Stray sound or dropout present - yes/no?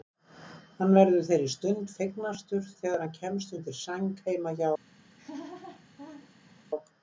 yes